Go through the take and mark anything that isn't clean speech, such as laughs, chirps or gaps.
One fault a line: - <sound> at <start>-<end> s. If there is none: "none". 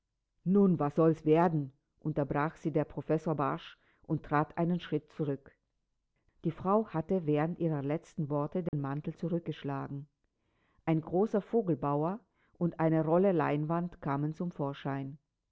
- dropout at 8.7-8.7 s